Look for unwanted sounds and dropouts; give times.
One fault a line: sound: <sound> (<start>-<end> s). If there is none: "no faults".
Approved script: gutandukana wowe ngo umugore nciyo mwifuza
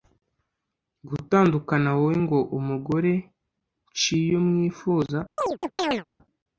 sound: chirp (5.4-6.0 s)